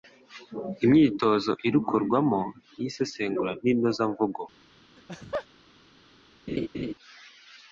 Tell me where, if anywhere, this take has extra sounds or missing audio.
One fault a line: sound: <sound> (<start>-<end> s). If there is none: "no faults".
sound: laugh (5.0-5.5 s)
sound: laugh (6.5-6.9 s)